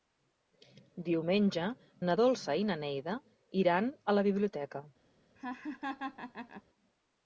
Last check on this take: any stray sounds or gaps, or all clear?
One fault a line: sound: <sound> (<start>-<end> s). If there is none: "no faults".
sound: laugh (5.4-6.6 s)